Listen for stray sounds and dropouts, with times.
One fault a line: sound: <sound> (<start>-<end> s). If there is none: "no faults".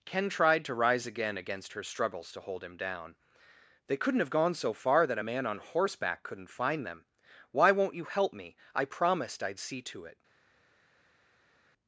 no faults